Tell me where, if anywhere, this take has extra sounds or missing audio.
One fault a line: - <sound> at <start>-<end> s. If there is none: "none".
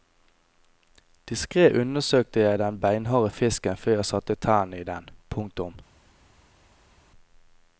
none